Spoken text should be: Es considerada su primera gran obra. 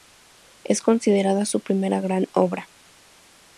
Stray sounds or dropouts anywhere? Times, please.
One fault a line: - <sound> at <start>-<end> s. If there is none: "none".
none